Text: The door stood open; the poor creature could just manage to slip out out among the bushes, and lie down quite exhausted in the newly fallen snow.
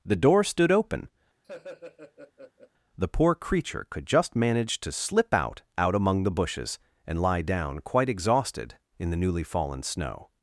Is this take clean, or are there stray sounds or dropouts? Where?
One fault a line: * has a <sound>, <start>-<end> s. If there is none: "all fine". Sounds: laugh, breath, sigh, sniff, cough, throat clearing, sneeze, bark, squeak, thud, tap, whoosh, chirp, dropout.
* has a laugh, 1.4-2.7 s